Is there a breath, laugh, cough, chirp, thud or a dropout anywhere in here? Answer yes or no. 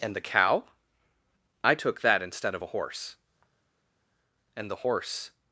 no